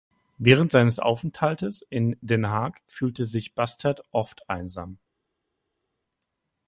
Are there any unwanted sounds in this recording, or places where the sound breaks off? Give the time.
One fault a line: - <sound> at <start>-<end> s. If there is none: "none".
none